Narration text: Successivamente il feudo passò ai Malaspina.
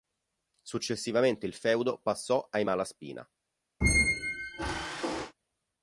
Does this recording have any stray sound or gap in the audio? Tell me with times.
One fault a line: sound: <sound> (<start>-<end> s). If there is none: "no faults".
sound: squeak (3.8-5.3 s)